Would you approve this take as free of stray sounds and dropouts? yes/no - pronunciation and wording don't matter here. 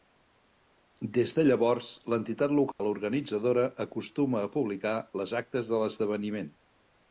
no